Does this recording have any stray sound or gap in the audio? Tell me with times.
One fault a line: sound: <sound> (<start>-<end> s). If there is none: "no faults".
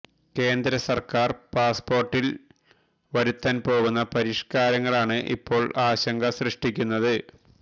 no faults